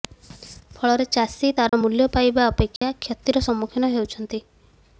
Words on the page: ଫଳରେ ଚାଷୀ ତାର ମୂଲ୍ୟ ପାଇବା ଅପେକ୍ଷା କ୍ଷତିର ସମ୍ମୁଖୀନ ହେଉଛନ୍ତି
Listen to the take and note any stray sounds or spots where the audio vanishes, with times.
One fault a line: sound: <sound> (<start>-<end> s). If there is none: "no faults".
sound: dropout (1.7-1.7 s)
sound: dropout (2.8-2.8 s)